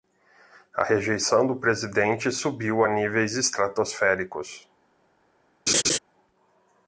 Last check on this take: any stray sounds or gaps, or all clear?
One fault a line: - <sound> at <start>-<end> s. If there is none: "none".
- laugh at 5.7-6.0 s